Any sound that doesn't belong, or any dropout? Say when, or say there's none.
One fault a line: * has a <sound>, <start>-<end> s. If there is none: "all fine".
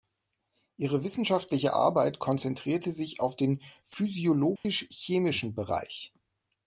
* has a dropout, 4.6-4.6 s